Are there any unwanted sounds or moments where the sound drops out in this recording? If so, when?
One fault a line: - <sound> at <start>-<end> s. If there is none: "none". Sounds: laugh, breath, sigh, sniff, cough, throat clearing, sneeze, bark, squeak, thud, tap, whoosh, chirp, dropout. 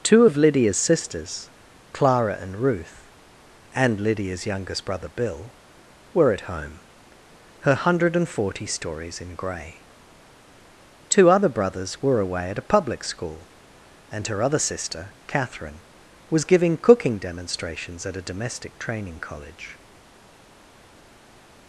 none